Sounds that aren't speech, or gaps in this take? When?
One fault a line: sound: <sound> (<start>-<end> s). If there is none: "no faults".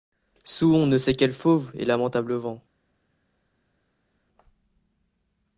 no faults